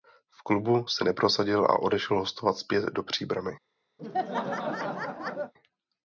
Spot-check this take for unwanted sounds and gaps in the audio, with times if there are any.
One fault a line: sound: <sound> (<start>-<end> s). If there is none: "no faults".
sound: laugh (4.0-5.5 s)